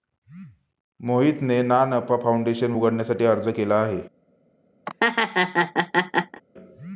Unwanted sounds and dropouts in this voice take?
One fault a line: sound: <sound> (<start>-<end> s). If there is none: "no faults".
sound: laugh (4.9-6.4 s)